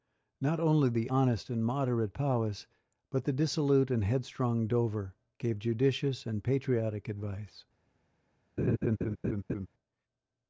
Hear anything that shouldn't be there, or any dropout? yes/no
yes